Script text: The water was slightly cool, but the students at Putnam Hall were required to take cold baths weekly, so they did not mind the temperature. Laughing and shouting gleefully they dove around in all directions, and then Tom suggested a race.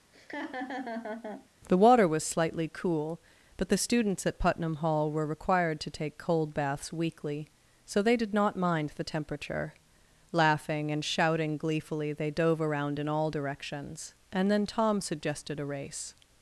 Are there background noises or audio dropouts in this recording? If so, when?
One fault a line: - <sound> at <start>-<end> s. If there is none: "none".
- laugh at 0.1-1.5 s